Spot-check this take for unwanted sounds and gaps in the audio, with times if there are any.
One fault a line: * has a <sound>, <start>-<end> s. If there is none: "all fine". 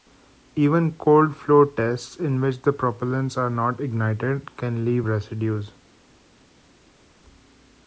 all fine